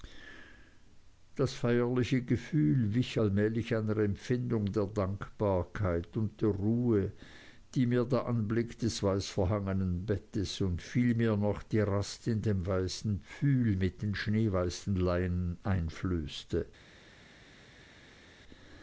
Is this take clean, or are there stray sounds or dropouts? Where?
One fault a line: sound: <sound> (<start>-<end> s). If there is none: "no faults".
no faults